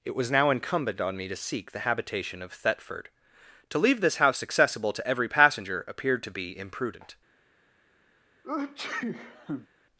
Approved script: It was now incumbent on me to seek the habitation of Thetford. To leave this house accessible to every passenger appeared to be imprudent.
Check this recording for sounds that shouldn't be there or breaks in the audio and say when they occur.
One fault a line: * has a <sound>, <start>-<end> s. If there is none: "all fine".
* has a sneeze, 8.4-9.7 s